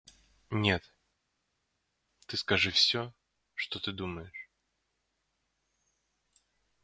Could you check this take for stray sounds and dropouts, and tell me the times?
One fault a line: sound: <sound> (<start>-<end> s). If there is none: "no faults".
no faults